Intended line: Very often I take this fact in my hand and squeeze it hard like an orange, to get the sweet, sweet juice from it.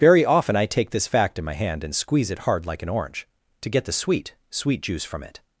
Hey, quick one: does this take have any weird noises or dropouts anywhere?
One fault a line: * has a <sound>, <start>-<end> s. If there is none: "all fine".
all fine